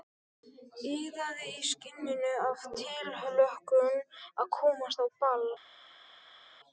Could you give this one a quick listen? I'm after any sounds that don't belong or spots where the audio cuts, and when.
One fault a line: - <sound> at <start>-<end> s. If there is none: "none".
none